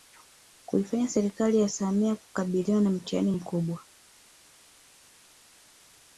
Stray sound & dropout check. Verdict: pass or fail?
pass